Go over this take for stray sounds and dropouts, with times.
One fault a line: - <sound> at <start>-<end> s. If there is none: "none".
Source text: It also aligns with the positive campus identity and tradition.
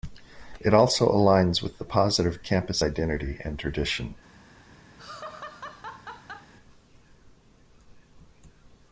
- laugh at 5.0-6.5 s